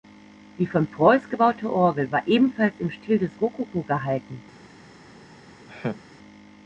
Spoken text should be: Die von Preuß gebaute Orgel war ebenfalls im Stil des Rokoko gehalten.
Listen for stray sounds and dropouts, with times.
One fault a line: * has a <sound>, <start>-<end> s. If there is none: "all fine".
* has a laugh, 5.7-6.0 s